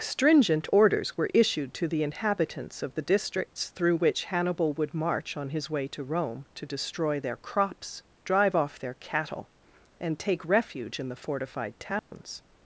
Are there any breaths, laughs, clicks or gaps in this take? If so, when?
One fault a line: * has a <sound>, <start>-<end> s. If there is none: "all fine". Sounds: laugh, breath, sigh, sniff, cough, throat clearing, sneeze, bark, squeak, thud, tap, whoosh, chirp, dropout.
* has a dropout, 12.0-12.1 s